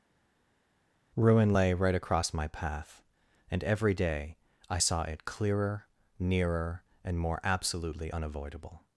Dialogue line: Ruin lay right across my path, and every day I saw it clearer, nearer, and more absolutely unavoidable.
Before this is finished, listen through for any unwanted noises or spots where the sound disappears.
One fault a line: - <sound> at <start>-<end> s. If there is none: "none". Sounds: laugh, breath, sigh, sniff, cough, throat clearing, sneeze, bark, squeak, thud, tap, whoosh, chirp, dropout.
none